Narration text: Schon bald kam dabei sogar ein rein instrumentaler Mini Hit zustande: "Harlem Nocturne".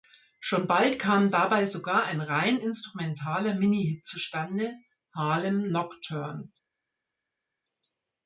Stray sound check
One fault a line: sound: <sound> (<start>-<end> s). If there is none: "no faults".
no faults